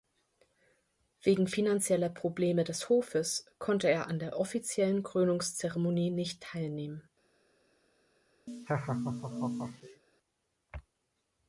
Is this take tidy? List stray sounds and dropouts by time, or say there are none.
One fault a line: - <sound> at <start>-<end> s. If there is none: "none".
- laugh at 8.5-10.0 s